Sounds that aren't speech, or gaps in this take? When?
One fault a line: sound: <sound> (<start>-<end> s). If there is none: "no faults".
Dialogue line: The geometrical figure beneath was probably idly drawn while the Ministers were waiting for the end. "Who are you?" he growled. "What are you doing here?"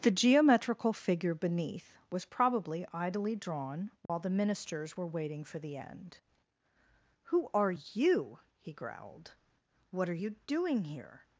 sound: dropout (4.1-4.1 s)